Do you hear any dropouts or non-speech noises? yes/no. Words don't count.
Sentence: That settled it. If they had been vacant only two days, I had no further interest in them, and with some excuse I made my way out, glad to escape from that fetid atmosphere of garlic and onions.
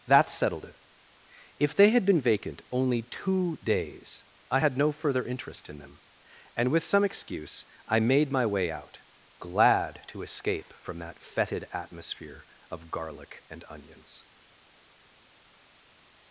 no